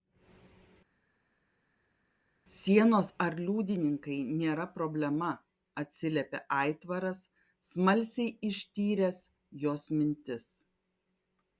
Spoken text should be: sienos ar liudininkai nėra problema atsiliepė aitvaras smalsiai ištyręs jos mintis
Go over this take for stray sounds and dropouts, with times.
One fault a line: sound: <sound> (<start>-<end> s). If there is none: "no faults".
no faults